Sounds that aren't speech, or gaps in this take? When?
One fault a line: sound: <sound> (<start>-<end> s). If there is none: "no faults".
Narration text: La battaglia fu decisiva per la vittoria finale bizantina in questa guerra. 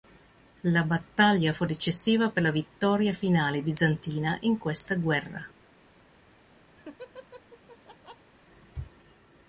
sound: laugh (6.8-8.3 s)